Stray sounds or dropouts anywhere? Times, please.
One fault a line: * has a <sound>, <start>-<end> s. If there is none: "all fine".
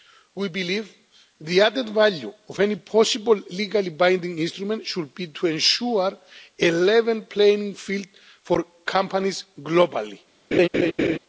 * has a laugh, 10.5-11.2 s